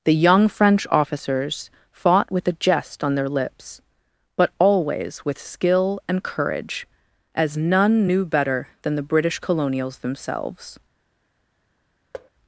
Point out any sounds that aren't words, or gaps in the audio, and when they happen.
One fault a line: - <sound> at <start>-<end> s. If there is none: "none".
- thud at 12.1-12.3 s